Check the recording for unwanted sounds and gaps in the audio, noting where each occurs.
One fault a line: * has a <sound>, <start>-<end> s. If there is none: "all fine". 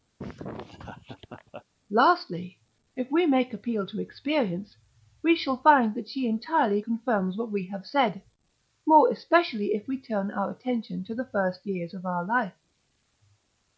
* has a laugh, 0.2-1.6 s